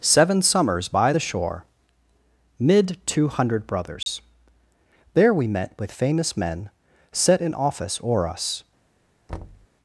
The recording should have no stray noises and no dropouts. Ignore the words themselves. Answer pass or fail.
fail